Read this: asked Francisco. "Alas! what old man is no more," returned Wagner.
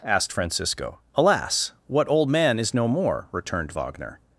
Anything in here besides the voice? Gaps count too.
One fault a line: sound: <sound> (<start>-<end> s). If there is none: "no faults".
no faults